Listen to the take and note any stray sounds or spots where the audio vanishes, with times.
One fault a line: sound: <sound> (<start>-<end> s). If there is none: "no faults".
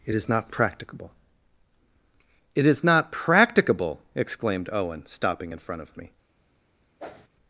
sound: whoosh (7.0-7.3 s)